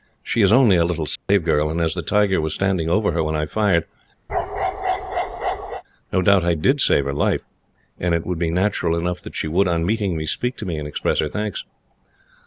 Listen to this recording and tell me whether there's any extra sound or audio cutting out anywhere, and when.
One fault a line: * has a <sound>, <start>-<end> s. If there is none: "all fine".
* has a dropout, 1.2-1.3 s
* has a bark, 4.3-5.8 s